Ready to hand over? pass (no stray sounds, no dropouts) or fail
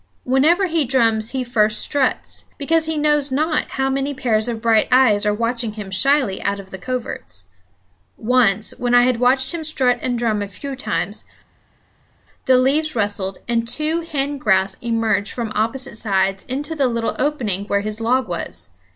pass